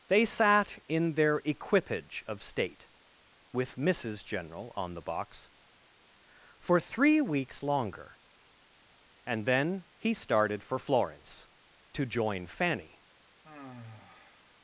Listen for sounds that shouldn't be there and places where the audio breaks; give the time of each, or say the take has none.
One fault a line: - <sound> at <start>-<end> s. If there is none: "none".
- sigh at 13.4-14.6 s